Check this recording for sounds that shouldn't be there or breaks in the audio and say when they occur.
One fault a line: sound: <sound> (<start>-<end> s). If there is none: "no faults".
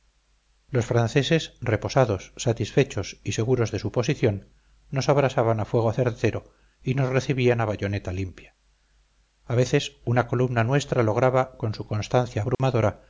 sound: dropout (12.5-12.6 s)